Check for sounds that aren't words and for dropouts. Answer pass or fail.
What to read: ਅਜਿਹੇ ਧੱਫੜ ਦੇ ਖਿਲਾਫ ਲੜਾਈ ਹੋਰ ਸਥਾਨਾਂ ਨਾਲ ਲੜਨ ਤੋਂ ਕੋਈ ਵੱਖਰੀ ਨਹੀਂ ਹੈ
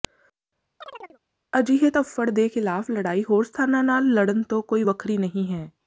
fail